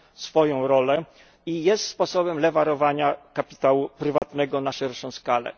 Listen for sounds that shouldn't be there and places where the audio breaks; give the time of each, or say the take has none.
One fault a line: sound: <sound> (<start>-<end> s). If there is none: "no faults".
sound: dropout (4.2-4.2 s)